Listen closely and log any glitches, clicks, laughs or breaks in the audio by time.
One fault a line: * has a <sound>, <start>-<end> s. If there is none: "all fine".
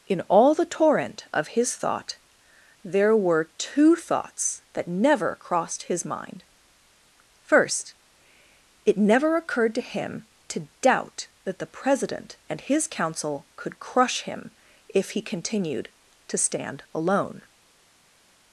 all fine